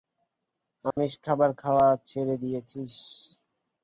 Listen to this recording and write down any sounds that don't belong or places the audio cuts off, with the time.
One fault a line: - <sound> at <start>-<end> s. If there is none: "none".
- dropout at 0.9-1.0 s